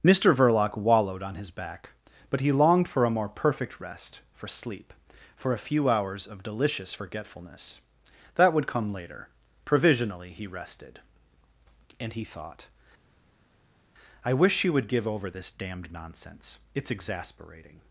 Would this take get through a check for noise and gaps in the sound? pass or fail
pass